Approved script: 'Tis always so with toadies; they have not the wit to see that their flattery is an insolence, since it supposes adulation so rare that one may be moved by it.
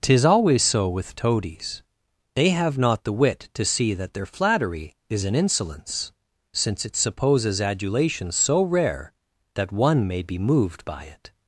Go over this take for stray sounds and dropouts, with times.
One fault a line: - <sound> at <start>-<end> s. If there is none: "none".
none